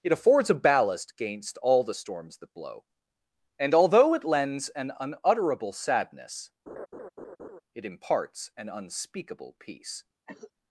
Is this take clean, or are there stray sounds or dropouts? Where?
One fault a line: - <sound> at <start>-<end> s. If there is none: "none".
- laugh at 6.7-7.6 s
- cough at 10.3-10.5 s